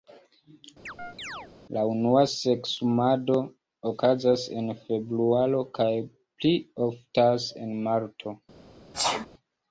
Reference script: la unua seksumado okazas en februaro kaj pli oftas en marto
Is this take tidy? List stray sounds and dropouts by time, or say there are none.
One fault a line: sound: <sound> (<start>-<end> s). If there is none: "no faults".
sound: chirp (0.9-1.5 s)
sound: sneeze (8.9-9.3 s)